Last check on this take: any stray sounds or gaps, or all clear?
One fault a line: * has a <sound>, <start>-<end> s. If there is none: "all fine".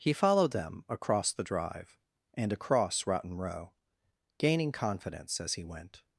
all fine